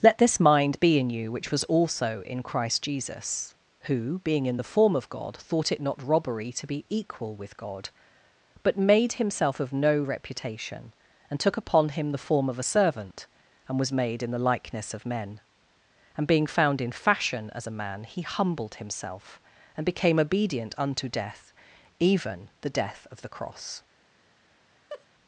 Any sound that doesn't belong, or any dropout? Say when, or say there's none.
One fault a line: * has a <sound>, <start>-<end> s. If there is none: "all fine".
* has a laugh, 24.9-25.1 s